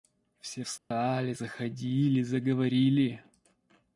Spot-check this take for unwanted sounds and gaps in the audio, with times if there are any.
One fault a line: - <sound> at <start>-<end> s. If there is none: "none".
- dropout at 0.8-0.9 s